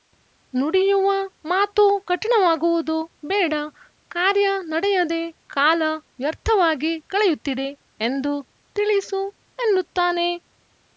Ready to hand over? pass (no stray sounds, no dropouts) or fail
pass